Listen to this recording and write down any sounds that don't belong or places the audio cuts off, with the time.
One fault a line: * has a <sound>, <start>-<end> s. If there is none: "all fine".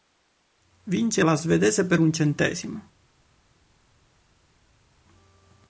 all fine